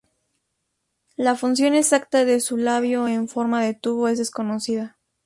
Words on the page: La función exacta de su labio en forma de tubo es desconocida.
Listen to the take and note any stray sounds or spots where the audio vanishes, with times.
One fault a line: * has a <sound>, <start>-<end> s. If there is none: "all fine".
all fine